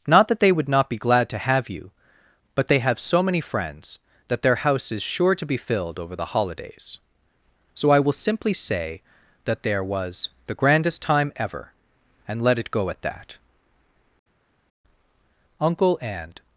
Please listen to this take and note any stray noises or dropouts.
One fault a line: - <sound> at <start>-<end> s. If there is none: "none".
none